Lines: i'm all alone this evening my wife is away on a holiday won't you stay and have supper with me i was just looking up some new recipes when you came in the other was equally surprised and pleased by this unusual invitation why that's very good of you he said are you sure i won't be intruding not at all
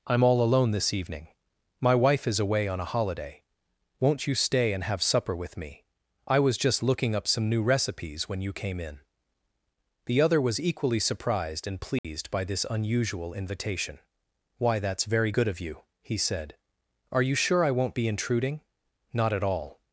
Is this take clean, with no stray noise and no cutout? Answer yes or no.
no